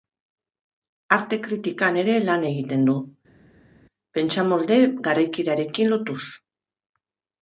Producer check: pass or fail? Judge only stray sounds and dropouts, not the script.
pass